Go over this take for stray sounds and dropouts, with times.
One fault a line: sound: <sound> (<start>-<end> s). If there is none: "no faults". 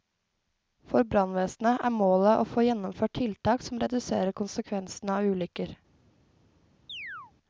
sound: chirp (6.9-7.3 s)